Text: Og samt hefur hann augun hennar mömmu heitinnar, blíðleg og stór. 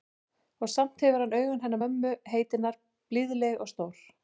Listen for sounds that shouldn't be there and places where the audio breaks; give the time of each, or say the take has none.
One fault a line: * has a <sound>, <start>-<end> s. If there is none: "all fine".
all fine